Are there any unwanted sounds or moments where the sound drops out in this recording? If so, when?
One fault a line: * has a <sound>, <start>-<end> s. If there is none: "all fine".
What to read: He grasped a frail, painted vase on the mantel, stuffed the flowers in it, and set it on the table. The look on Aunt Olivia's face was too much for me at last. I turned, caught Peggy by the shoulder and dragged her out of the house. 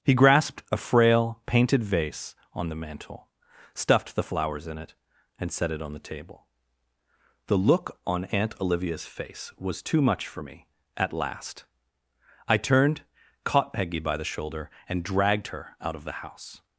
all fine